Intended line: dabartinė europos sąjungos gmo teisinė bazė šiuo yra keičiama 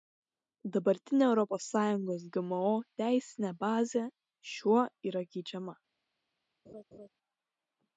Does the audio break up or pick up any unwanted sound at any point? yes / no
yes